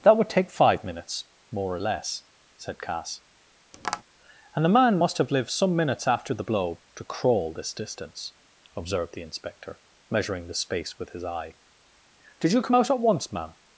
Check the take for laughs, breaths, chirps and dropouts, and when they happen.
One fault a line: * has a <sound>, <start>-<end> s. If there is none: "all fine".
* has a tap, 3.7-4.0 s